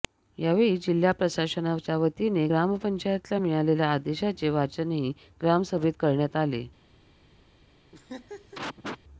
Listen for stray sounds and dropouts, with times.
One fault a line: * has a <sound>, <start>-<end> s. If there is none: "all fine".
* has a laugh, 7.9-9.0 s